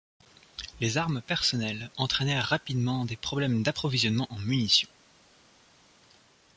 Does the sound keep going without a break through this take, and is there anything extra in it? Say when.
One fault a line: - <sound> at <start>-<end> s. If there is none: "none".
none